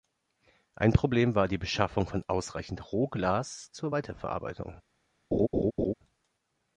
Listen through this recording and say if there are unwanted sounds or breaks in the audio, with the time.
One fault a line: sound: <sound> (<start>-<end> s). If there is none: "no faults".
sound: laugh (5.3-5.9 s)